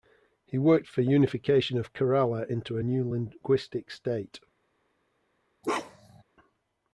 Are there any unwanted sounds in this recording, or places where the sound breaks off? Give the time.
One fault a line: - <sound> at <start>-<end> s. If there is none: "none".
- bark at 5.6-6.2 s